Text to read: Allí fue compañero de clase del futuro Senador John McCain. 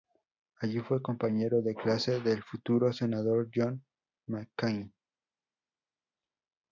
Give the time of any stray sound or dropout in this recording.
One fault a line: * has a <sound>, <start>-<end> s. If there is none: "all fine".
all fine